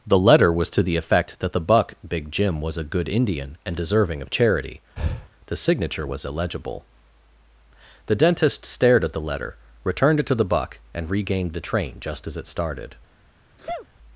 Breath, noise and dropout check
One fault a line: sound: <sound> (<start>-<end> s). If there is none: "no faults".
sound: breath (5.0-5.3 s)
sound: sneeze (13.6-13.9 s)